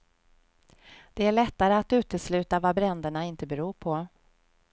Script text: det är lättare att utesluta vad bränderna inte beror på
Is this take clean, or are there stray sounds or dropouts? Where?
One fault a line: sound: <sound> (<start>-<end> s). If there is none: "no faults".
no faults